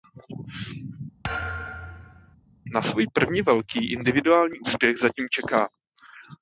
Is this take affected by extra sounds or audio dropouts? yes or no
yes